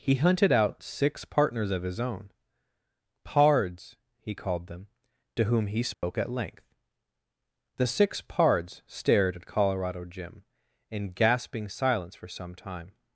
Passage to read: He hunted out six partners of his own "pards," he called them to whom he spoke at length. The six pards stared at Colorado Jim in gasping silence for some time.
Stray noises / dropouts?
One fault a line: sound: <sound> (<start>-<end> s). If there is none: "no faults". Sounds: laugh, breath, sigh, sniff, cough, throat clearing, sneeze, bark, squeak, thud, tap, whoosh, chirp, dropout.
sound: dropout (5.9-6.0 s)